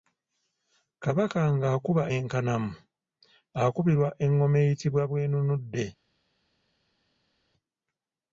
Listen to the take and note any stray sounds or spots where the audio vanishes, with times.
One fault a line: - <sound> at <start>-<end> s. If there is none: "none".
none